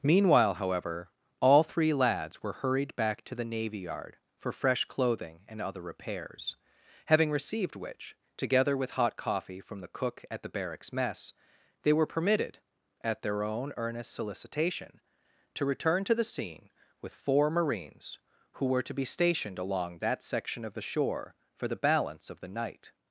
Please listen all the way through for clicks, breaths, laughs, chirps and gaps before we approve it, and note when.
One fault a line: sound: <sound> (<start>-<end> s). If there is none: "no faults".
no faults